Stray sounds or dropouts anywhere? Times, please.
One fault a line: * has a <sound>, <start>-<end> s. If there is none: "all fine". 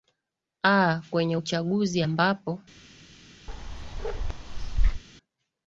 * has a bark, 3.5-5.0 s